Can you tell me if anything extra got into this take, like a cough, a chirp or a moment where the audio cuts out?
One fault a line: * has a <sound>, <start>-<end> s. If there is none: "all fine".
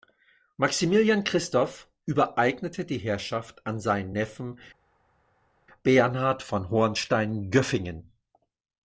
all fine